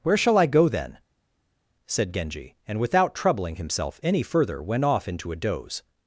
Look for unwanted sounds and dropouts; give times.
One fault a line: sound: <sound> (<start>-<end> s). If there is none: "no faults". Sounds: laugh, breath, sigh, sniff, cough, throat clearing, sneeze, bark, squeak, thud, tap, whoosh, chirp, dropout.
no faults